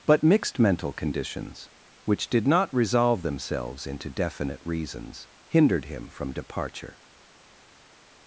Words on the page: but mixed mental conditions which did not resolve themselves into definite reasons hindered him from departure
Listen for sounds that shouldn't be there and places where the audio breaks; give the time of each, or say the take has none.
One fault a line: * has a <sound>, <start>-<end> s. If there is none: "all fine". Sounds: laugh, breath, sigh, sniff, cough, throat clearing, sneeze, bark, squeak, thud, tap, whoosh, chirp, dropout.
all fine